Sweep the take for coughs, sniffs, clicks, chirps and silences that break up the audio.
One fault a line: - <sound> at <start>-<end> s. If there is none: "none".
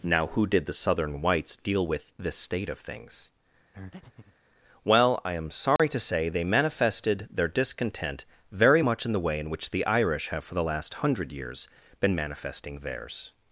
- breath at 3.7-4.4 s
- dropout at 5.8-5.8 s